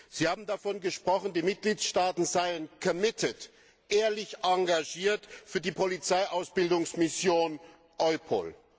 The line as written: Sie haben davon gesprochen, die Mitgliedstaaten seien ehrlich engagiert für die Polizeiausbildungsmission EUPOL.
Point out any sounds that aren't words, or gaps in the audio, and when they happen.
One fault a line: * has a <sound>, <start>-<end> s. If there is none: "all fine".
all fine